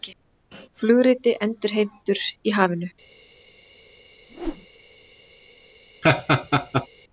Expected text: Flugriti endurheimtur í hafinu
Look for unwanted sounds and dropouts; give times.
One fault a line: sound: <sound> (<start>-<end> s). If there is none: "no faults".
sound: whoosh (4.3-4.7 s)
sound: laugh (6.0-6.9 s)